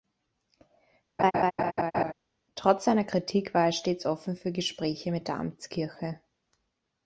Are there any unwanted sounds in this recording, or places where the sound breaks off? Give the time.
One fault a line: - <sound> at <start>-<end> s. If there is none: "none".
- laugh at 1.2-2.1 s